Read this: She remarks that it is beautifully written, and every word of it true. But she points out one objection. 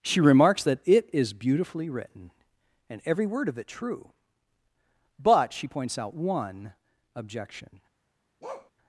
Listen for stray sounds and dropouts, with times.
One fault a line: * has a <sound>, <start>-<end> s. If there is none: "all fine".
* has a bark, 8.4-8.7 s